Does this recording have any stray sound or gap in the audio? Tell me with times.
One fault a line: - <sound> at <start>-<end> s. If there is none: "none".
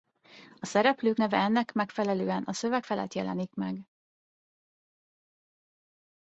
none